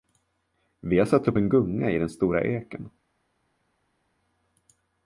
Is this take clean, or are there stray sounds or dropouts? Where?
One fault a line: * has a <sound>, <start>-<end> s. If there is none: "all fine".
all fine